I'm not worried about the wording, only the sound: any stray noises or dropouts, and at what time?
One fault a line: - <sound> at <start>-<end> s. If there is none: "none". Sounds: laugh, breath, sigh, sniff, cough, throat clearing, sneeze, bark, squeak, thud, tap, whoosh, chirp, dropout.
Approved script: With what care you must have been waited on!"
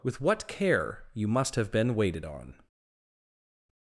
none